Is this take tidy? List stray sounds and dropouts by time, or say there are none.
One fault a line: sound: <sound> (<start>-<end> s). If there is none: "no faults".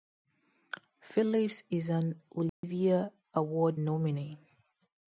sound: dropout (2.5-2.6 s)